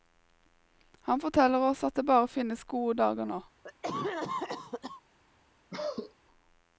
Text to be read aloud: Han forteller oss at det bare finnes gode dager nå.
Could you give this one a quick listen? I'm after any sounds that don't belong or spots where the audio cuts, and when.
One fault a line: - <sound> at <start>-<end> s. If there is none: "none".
- cough at 3.6-5.0 s
- cough at 5.7-6.1 s